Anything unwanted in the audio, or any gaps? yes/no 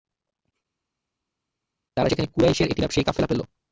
no